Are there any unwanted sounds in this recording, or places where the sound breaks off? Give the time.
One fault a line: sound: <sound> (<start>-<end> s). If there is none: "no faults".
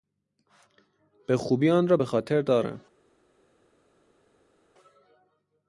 no faults